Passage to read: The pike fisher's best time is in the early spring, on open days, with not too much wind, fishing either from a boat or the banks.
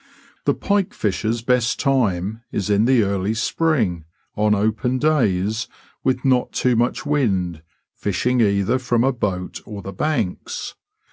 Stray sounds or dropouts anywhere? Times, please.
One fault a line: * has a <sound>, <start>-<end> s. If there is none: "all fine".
all fine